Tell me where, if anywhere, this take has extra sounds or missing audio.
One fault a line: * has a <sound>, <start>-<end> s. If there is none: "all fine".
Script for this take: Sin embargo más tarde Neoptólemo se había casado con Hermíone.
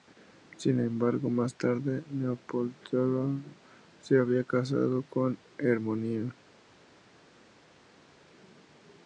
all fine